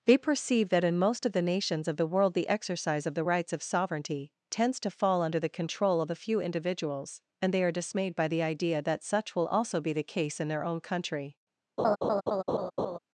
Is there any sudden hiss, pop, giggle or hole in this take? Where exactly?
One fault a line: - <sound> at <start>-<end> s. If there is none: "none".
- laugh at 11.8-13.0 s